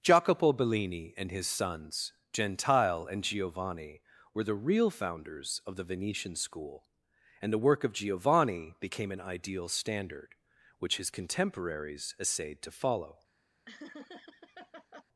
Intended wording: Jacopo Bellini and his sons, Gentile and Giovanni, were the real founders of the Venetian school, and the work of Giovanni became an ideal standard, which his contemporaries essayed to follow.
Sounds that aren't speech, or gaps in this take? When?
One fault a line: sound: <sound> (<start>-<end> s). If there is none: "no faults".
sound: laugh (13.7-15.0 s)